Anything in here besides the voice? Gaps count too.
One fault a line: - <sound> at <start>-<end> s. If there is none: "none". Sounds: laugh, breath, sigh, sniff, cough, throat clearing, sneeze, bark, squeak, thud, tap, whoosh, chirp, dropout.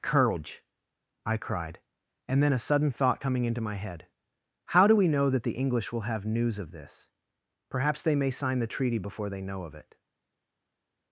none